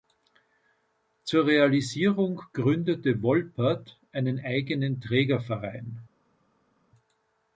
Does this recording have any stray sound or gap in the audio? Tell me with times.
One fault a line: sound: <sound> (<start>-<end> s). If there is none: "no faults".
no faults